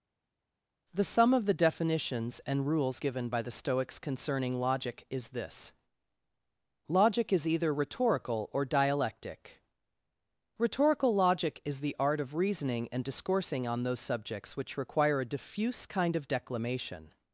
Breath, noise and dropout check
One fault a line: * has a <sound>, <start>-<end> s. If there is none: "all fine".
all fine